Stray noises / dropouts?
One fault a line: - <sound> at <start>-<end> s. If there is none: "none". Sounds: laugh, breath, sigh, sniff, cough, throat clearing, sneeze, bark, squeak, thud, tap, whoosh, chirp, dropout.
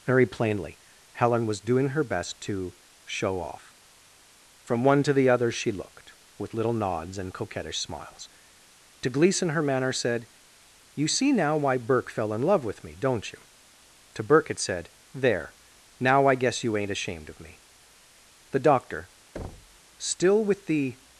- thud at 19.3-19.8 s